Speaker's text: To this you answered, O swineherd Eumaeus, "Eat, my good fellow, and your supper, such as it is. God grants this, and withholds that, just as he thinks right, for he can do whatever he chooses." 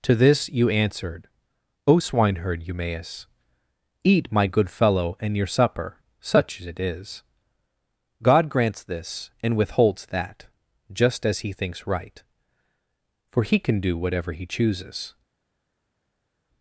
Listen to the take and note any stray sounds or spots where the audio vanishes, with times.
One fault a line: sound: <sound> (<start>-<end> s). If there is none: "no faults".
no faults